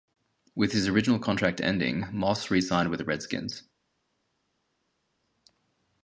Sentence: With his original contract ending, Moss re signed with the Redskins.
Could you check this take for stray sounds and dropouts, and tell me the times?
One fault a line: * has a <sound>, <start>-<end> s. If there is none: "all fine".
all fine